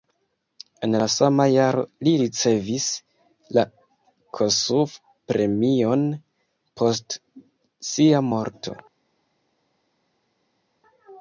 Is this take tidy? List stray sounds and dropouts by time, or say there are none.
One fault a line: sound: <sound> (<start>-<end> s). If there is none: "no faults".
no faults